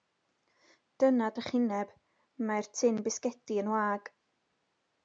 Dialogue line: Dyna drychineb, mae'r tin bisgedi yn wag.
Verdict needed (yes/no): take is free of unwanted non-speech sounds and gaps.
yes